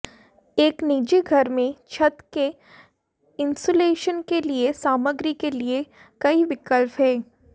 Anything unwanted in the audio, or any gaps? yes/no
no